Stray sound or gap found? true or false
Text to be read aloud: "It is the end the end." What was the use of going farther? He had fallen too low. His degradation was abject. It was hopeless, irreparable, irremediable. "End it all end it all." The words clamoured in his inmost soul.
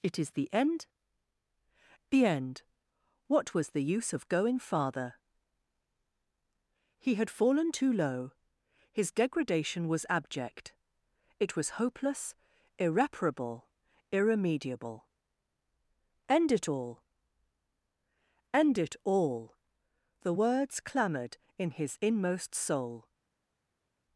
false